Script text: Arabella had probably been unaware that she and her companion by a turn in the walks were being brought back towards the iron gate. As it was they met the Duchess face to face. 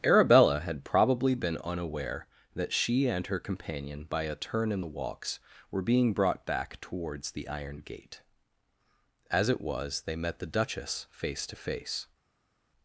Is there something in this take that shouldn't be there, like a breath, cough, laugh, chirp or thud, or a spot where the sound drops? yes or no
no